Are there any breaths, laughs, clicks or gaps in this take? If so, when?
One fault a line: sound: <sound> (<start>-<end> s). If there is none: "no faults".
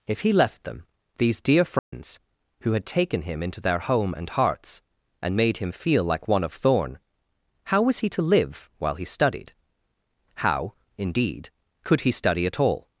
sound: dropout (1.8-1.9 s)